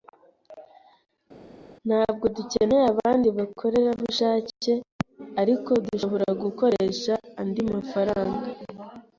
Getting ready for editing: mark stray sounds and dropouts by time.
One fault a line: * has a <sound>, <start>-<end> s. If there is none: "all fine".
all fine